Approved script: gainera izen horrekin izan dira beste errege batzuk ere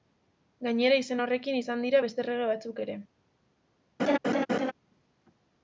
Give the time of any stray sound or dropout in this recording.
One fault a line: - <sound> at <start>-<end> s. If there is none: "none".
- laugh at 4.0-4.7 s